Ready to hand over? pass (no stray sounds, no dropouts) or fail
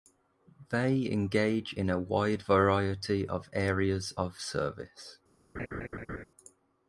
fail